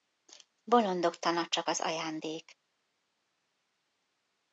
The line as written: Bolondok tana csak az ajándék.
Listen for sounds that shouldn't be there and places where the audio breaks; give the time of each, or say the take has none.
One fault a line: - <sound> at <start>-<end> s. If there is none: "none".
none